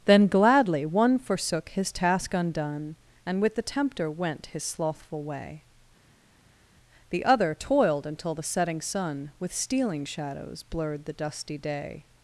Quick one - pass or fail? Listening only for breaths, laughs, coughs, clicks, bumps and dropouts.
pass